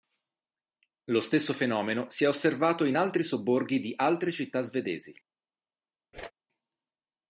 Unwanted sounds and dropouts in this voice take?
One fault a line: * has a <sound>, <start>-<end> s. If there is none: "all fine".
* has a whoosh, 6.1-6.3 s